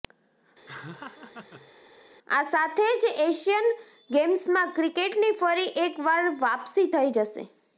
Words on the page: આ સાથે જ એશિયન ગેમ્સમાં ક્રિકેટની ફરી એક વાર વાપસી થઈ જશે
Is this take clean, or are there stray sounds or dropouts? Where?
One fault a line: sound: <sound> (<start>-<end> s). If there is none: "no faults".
sound: laugh (0.7-1.7 s)